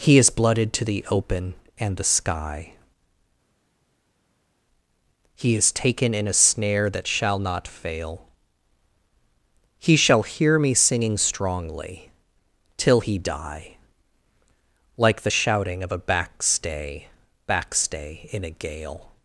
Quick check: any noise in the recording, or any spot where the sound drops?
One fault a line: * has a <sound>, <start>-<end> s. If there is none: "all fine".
all fine